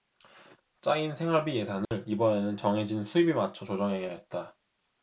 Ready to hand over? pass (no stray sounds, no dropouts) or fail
fail